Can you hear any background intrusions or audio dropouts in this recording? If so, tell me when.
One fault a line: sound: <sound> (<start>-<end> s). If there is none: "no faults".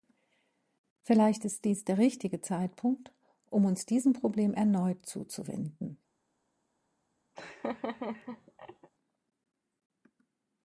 sound: laugh (7.4-8.9 s)